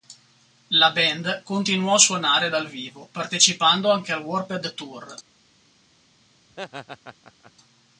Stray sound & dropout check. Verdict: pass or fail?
fail